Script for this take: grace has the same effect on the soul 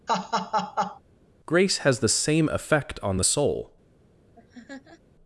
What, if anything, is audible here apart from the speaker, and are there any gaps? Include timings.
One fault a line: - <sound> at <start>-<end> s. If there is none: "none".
- laugh at 0.1-1.0 s
- laugh at 4.3-5.0 s